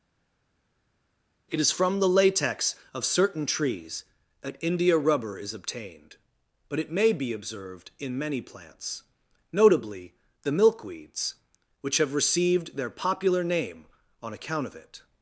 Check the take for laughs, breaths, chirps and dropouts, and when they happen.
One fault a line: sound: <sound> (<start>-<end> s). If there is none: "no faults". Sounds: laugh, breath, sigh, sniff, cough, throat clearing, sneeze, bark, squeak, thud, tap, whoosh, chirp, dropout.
no faults